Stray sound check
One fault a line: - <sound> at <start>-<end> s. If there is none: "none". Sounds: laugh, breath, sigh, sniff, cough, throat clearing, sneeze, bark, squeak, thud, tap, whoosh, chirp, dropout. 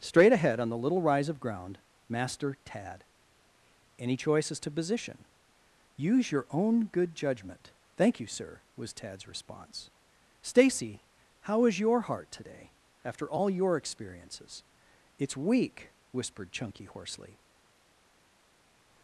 none